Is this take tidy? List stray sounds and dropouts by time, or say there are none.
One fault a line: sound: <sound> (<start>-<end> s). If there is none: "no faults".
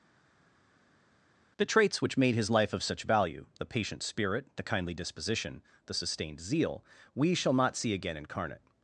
no faults